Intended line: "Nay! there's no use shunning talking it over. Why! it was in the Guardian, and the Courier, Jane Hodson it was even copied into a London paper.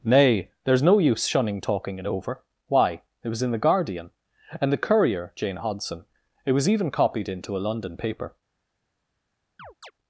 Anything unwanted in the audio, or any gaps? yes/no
yes